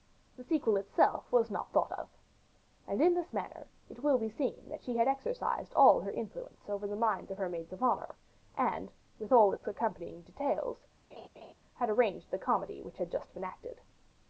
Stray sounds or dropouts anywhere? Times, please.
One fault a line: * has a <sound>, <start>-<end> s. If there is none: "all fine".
* has a laugh, 11.1-11.5 s